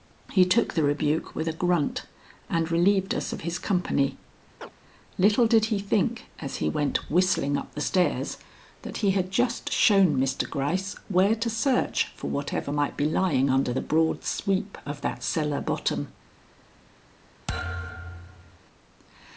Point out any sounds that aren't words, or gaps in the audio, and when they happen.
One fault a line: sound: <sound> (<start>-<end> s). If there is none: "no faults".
sound: chirp (4.6-4.7 s)
sound: thud (17.5-18.6 s)